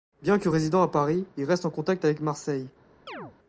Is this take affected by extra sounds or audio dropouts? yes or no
yes